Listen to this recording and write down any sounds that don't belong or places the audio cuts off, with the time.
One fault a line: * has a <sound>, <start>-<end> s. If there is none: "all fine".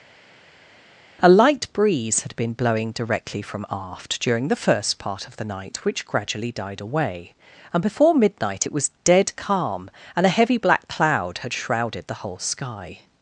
all fine